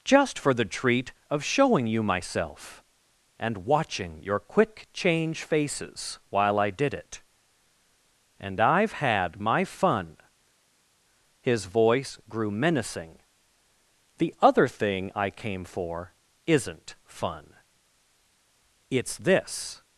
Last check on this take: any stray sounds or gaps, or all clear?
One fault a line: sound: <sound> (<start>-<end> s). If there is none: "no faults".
no faults